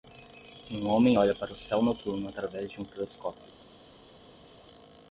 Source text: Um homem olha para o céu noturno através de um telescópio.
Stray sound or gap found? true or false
false